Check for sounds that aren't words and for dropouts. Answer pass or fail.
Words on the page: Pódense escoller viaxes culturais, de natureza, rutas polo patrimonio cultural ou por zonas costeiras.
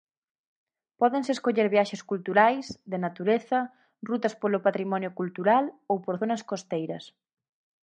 pass